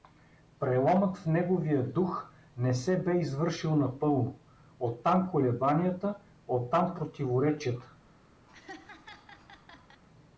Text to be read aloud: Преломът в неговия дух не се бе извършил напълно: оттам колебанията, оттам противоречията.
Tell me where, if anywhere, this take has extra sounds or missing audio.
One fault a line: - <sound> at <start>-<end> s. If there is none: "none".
- laugh at 8.5-10.0 s